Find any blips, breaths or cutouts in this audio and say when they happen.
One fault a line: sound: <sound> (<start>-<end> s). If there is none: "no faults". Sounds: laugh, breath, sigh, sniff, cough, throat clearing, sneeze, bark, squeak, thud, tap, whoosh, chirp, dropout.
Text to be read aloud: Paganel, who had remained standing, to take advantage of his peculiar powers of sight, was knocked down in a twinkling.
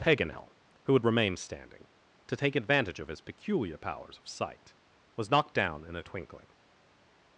no faults